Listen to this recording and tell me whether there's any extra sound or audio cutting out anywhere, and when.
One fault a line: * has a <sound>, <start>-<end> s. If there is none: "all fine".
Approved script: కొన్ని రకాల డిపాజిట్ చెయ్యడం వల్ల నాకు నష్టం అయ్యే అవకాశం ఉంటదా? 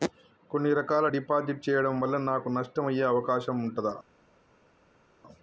all fine